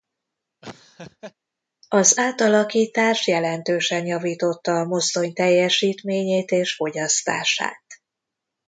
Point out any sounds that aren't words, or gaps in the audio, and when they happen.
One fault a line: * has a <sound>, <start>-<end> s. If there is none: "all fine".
* has a laugh, 0.6-1.3 s